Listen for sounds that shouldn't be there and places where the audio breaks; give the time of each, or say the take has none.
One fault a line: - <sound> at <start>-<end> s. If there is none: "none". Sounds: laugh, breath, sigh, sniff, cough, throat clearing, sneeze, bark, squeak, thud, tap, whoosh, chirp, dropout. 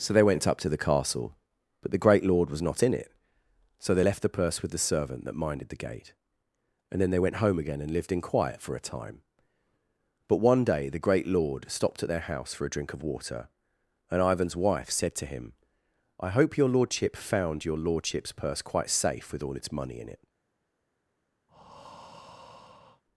- breath at 21.5-23.0 s